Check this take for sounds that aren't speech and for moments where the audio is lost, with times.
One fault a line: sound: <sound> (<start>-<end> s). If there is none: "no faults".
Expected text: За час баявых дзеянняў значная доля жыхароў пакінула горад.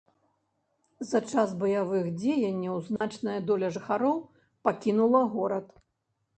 sound: dropout (3.0-3.0 s)